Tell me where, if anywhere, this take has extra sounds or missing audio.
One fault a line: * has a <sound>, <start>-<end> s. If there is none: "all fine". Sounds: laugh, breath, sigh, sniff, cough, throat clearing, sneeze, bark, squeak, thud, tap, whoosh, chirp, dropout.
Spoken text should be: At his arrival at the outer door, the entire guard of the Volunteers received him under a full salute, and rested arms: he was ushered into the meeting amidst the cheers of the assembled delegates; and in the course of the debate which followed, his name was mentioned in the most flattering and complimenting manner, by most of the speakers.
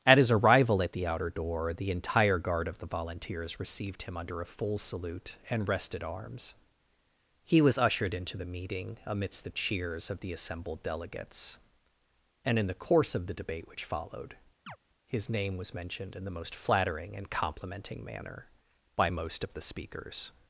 * has a chirp, 14.7-14.8 s